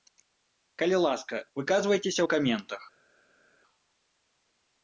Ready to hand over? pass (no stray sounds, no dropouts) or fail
pass